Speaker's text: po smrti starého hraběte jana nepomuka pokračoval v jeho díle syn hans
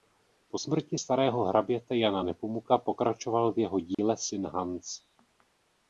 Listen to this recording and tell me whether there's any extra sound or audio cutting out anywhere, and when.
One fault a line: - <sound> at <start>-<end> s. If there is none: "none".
- dropout at 3.9-4.0 s